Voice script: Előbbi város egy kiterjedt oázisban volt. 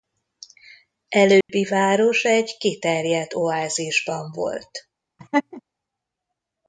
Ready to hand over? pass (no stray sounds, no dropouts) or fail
fail